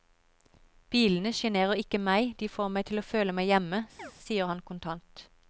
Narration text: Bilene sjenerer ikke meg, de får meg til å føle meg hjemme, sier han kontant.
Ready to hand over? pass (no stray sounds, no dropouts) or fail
fail